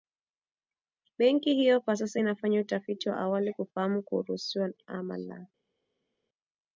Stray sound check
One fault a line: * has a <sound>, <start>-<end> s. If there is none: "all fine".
all fine